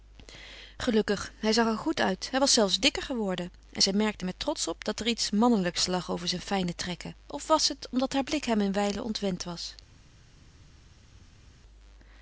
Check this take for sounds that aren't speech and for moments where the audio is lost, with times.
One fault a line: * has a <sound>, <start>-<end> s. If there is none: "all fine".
all fine